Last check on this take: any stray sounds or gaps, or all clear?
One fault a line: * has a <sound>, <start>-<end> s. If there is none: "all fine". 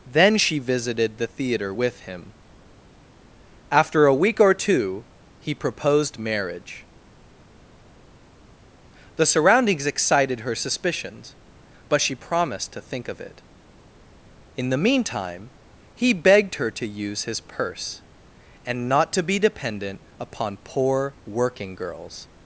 all fine